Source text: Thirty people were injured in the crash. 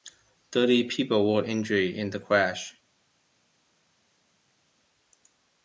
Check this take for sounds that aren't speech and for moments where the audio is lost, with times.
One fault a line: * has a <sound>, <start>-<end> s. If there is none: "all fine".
all fine